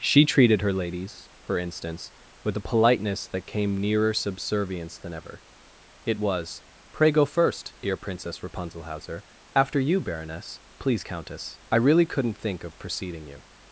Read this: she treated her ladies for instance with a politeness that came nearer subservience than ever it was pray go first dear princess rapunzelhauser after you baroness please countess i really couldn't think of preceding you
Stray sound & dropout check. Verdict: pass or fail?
pass